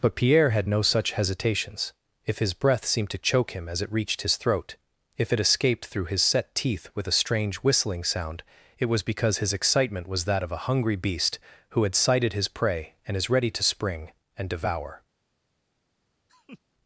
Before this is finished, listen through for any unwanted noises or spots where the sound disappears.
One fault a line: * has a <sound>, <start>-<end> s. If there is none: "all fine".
* has a laugh, 16.3-16.6 s